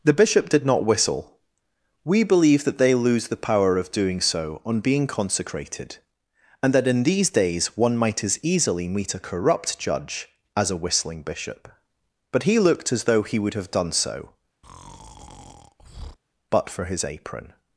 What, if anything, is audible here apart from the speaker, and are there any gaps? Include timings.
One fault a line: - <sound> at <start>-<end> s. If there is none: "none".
- breath at 14.6-16.2 s